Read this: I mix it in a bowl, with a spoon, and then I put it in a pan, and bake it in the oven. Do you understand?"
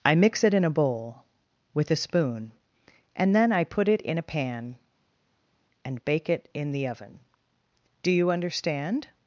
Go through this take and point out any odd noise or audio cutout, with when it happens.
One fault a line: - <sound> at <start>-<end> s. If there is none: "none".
none